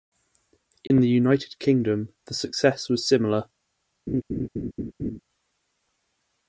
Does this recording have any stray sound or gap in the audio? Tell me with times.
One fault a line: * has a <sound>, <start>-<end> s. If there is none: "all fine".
* has a dropout, 0.9-0.9 s
* has a laugh, 4.1-5.2 s